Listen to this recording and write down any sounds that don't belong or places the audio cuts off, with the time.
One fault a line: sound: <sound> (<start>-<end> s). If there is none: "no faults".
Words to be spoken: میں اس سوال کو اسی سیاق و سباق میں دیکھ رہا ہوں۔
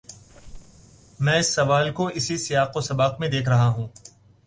sound: squeak (0.3-0.8 s)